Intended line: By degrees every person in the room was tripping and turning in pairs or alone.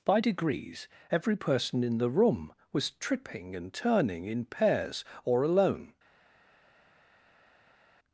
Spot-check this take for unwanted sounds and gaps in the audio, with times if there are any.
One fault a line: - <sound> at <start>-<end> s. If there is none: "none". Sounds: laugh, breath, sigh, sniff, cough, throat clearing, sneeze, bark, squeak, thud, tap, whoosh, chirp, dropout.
none